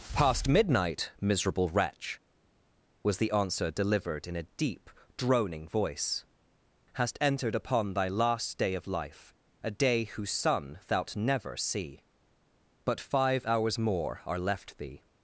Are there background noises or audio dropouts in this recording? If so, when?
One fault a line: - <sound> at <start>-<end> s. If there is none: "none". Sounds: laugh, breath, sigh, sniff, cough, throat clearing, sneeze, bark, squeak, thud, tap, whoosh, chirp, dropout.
none